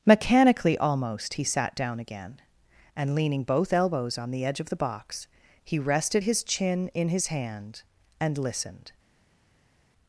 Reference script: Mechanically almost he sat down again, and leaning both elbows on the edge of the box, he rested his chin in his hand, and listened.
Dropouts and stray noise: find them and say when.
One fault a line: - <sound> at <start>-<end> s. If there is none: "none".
none